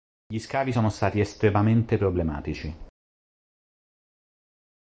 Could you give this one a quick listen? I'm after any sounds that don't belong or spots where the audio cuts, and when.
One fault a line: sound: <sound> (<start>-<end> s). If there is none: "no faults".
no faults